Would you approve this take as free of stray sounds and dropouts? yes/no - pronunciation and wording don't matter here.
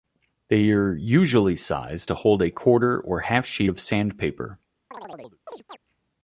no